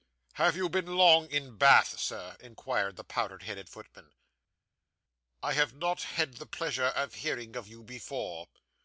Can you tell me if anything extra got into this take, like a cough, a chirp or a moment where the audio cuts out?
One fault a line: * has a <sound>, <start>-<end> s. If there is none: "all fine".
all fine